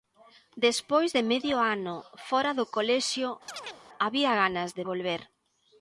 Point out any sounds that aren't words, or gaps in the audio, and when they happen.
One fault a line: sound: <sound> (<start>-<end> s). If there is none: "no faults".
sound: chirp (3.5-3.8 s)